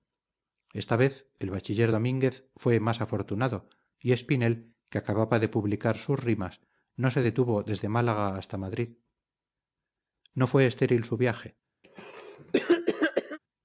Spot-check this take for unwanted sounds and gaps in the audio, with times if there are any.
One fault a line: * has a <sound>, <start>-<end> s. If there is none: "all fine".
* has a cough, 11.8-13.4 s